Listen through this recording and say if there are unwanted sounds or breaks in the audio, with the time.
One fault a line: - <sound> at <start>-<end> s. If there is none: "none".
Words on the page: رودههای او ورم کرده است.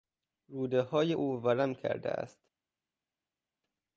none